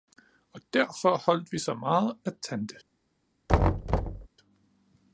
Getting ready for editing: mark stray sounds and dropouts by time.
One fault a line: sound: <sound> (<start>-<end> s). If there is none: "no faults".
sound: thud (3.5-4.3 s)